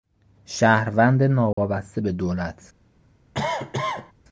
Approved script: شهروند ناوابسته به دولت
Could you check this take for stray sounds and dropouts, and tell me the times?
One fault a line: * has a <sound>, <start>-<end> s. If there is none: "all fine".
* has a dropout, 1.5-1.6 s
* has a cough, 3.3-4.1 s